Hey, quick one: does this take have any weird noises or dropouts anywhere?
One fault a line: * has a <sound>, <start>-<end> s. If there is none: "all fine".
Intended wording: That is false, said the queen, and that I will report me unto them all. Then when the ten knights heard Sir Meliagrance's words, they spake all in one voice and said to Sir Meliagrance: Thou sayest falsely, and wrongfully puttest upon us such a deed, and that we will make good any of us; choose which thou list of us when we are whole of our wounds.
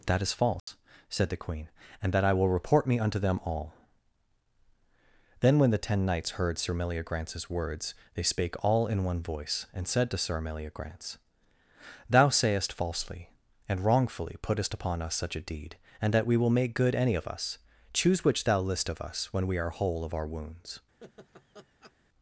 * has a dropout, 0.6-0.7 s
* has a laugh, 21.0-21.9 s